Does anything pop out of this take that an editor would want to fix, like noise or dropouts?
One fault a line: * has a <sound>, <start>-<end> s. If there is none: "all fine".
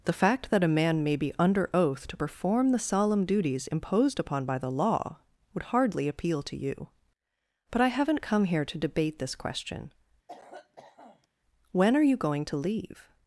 * has a cough, 10.3-11.3 s